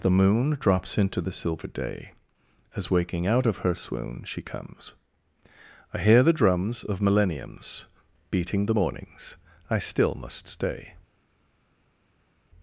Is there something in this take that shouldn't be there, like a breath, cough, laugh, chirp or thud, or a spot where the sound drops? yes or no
no